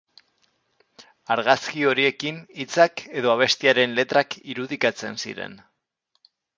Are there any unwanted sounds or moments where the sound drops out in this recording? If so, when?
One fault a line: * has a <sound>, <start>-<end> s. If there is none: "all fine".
all fine